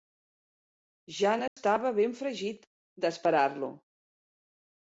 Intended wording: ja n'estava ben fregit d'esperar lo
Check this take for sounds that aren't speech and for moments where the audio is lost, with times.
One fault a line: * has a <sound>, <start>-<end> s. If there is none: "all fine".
* has a dropout, 1.5-1.6 s